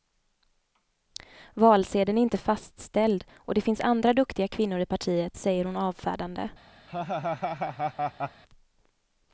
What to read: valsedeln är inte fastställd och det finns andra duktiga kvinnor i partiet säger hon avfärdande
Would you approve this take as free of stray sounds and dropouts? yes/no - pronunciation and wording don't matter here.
no